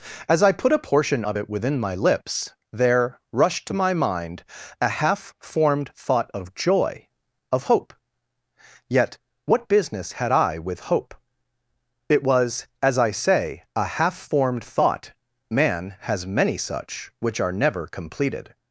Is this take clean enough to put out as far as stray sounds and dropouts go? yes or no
yes